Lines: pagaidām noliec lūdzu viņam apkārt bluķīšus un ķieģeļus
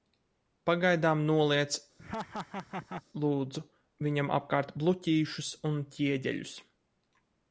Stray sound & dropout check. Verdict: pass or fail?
fail